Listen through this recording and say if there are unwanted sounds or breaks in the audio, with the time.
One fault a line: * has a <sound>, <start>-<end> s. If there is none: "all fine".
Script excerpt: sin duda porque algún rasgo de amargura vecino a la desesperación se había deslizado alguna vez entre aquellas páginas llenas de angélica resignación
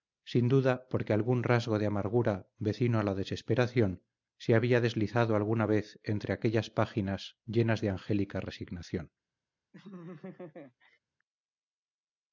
* has a laugh, 9.7-11.0 s